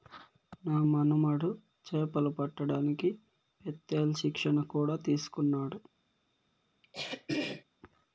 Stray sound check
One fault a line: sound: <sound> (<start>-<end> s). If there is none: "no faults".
sound: throat clearing (6.8-7.6 s)